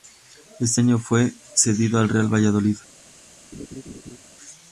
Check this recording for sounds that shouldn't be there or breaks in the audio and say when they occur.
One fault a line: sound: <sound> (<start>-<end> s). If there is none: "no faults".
sound: laugh (3.5-4.2 s)